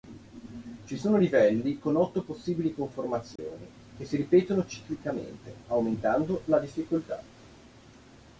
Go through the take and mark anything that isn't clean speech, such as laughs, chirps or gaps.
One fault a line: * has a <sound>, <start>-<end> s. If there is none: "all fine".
* has a dropout, 3.4-3.4 s